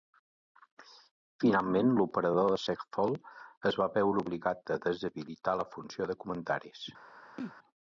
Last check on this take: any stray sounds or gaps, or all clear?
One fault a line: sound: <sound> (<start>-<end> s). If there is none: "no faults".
sound: sneeze (7.4-7.5 s)